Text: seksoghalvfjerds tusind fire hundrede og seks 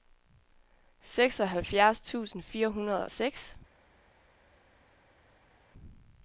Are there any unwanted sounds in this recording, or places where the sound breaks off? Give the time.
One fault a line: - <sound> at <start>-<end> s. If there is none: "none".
none